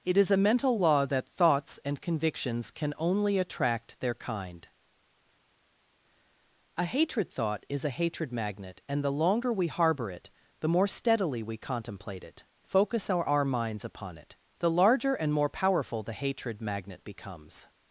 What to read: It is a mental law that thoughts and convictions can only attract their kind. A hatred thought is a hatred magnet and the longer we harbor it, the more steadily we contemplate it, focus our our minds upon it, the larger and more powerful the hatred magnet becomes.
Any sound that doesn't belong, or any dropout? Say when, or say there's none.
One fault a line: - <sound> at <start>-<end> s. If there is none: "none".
none